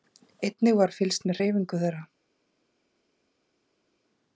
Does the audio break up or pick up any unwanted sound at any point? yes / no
no